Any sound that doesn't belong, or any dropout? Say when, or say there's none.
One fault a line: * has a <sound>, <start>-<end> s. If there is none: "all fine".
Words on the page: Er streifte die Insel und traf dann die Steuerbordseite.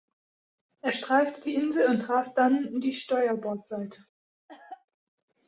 * has a cough, 4.5-4.9 s